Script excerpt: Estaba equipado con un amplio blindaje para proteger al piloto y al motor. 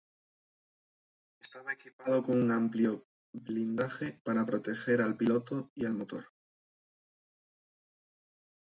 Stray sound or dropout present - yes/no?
no